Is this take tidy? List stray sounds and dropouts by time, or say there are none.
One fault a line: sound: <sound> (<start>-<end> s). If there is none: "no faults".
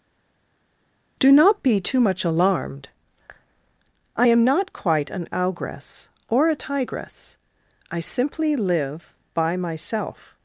no faults